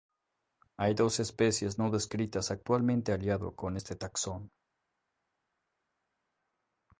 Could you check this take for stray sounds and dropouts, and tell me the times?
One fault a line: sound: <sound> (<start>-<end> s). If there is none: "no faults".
no faults